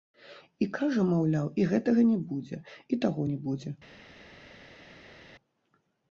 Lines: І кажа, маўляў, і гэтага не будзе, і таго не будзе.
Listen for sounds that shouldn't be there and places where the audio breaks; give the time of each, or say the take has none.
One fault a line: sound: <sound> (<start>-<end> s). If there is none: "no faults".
no faults